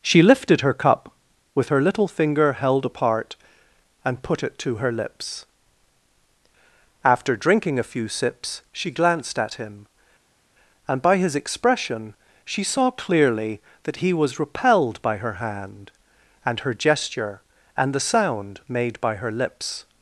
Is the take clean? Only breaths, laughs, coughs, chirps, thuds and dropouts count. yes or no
yes